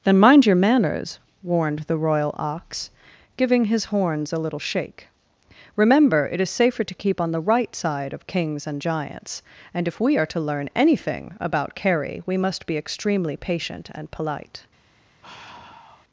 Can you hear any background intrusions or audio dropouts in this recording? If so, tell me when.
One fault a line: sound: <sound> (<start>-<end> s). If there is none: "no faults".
sound: sigh (15.2-16.0 s)